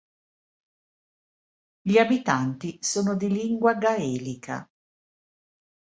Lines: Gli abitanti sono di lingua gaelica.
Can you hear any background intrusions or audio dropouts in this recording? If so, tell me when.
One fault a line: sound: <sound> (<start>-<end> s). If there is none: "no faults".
no faults